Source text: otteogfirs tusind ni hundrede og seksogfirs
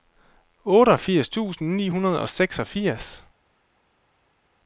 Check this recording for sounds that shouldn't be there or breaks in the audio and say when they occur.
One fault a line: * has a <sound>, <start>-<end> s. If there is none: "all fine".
all fine